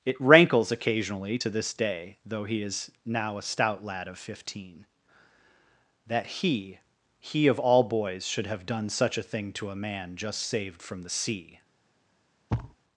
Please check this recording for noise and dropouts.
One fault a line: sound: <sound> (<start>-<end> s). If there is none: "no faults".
sound: thud (12.5-12.8 s)